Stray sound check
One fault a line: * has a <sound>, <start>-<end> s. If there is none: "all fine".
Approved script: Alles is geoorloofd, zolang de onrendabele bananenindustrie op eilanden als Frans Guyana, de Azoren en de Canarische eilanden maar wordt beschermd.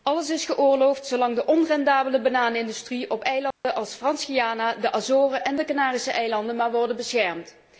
* has a dropout, 3.5-3.6 s